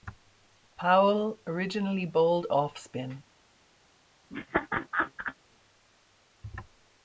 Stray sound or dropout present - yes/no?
yes